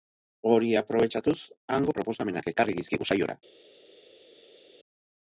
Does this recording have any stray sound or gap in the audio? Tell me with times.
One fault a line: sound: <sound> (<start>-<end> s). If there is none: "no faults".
no faults